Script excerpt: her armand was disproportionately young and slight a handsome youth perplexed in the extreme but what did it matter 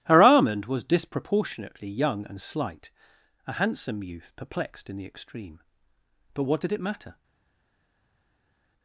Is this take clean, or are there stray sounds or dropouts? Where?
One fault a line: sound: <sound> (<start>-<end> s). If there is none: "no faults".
no faults